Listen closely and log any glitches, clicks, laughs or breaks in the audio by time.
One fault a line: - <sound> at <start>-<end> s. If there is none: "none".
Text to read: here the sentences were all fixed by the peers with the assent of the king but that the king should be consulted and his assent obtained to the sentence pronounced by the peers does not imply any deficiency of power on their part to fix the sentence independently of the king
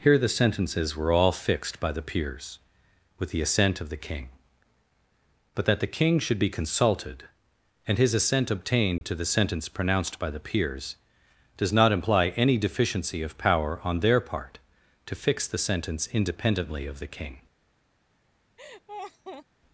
- dropout at 9.0-9.0 s
- laugh at 18.6-19.5 s